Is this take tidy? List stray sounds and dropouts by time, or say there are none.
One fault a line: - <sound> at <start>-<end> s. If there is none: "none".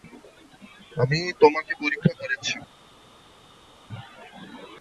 none